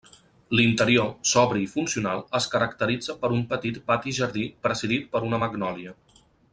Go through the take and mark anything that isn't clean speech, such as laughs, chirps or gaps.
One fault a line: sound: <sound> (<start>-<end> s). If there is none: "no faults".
no faults